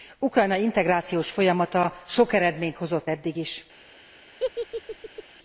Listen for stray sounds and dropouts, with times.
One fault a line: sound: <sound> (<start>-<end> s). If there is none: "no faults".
sound: laugh (4.4-5.2 s)